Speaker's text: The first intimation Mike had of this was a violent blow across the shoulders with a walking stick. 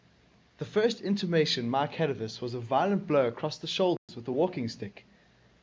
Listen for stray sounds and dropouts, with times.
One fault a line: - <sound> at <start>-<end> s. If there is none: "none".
- dropout at 4.0-4.1 s